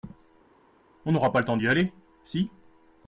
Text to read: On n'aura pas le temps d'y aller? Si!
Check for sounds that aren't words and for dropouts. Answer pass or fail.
pass